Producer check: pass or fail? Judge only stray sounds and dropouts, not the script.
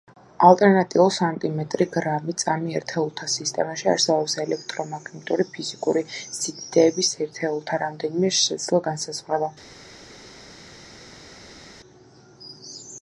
pass